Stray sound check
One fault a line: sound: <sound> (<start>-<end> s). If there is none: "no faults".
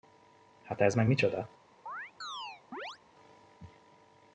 sound: chirp (1.9-3.0 s)